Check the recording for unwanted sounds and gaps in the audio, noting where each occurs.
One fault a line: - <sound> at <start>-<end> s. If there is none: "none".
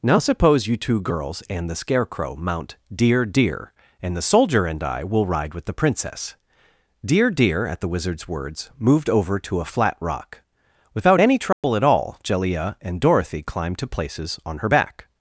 - dropout at 11.5-11.6 s